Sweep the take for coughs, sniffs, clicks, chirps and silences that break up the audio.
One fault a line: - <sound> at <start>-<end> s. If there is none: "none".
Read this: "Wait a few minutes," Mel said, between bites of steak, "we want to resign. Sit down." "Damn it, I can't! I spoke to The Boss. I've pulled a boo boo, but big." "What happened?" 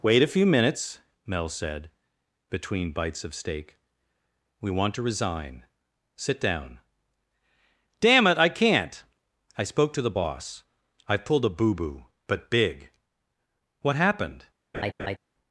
- laugh at 14.7-15.2 s